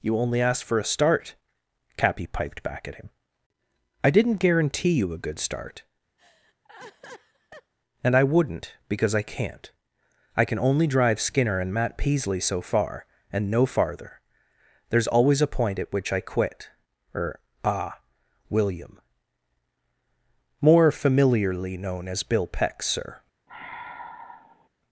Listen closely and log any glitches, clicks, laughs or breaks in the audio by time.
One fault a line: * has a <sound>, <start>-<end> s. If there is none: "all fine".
* has a laugh, 6.2-7.7 s
* has a sigh, 23.5-24.7 s